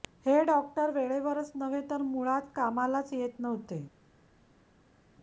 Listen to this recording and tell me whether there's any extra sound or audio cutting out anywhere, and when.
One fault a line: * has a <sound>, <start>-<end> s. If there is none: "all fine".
all fine